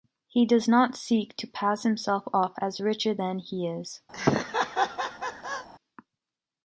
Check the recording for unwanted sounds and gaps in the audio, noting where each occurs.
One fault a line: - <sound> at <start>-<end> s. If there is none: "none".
- laugh at 4.1-5.7 s